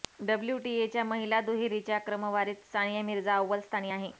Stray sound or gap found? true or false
false